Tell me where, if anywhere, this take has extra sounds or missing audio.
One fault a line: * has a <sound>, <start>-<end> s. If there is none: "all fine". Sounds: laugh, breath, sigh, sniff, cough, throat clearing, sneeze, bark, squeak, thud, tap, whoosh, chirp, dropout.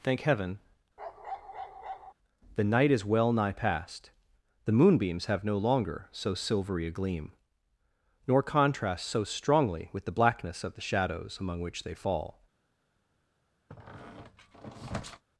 * has a bark, 1.0-2.1 s
* has a squeak, 13.7-15.2 s